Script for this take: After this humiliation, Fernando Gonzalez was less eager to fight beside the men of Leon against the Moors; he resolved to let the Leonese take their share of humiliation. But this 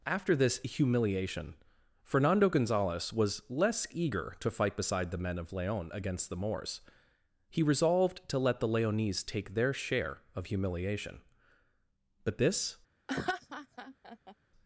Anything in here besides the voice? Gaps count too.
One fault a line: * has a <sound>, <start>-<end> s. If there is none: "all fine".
* has a laugh, 13.1-14.4 s